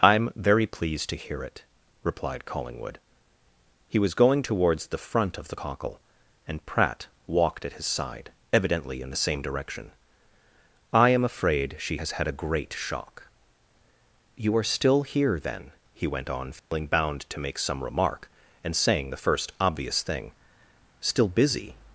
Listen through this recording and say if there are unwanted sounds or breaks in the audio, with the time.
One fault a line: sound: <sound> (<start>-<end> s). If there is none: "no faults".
sound: dropout (16.6-16.7 s)